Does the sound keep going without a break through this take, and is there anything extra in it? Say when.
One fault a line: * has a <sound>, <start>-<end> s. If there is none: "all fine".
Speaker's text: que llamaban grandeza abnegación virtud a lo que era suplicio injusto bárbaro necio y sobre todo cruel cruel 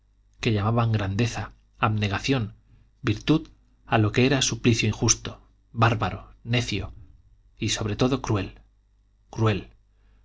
all fine